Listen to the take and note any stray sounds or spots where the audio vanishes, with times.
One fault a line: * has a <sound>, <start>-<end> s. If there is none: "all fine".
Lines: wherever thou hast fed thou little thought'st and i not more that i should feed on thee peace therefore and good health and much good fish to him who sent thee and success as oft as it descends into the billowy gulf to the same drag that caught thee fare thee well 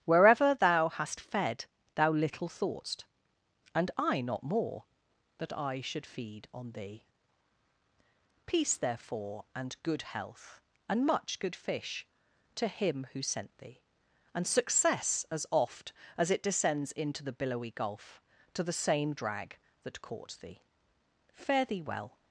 all fine